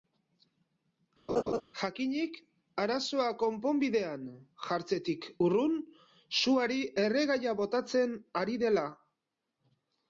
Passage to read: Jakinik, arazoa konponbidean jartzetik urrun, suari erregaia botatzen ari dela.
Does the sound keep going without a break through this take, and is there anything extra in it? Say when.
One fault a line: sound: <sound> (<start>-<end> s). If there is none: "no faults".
sound: laugh (1.3-1.6 s)